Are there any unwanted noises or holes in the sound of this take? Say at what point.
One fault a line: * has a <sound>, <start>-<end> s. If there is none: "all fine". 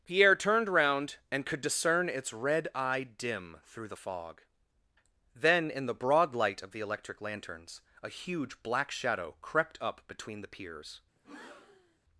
* has a breath, 11.2-12.0 s